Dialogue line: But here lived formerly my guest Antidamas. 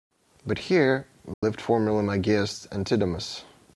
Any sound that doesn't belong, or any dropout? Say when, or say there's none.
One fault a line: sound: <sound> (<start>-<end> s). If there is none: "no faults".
sound: dropout (1.3-1.4 s)